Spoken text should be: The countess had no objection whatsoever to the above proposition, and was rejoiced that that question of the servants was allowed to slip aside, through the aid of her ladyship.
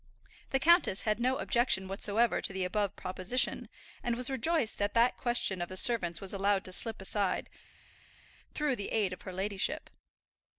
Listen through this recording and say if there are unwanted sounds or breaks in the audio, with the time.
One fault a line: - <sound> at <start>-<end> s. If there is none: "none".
none